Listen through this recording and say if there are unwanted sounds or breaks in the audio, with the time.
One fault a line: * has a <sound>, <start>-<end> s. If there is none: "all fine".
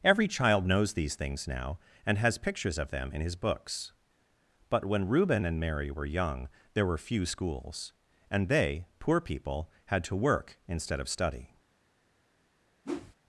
* has a whoosh, 12.8-13.2 s